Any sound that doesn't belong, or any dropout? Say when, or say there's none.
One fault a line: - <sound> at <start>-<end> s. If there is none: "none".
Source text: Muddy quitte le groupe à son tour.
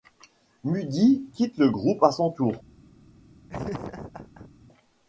- laugh at 3.5-4.5 s